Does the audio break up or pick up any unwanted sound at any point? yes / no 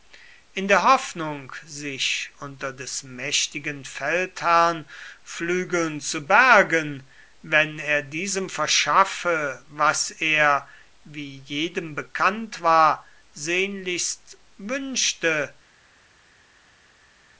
no